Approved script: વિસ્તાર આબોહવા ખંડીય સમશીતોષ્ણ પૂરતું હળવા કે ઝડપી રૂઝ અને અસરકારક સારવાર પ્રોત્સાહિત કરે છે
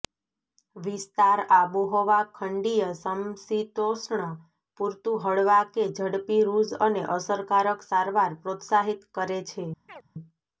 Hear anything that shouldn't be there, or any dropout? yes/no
yes